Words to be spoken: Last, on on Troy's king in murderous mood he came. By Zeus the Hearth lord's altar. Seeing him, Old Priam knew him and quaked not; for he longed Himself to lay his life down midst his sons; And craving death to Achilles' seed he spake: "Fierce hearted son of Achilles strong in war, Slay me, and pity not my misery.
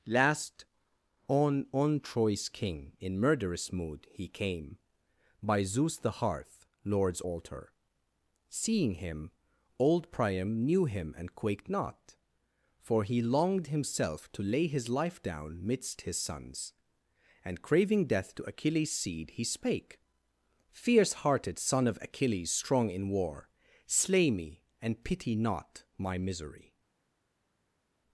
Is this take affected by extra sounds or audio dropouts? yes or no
no